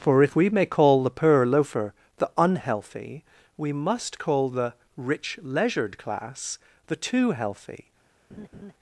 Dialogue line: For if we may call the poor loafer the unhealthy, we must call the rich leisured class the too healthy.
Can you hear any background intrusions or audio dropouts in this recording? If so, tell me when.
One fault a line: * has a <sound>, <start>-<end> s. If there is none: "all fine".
* has a laugh, 8.3-8.7 s